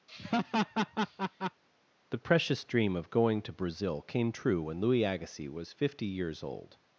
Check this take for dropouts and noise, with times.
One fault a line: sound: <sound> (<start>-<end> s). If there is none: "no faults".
sound: laugh (0.1-1.6 s)